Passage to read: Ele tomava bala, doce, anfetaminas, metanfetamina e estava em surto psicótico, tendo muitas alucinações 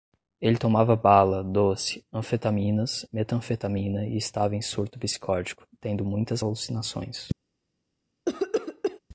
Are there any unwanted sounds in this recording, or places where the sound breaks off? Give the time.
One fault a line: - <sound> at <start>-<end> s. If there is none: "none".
- cough at 8.3-9.0 s